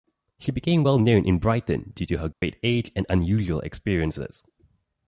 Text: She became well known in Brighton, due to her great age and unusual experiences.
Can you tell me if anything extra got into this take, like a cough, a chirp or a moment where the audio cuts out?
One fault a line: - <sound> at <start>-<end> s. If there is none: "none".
- dropout at 2.3-2.4 s